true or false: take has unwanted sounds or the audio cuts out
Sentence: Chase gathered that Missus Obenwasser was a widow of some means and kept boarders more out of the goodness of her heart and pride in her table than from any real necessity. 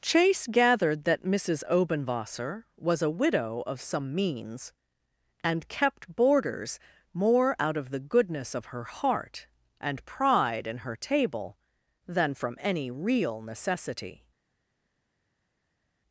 false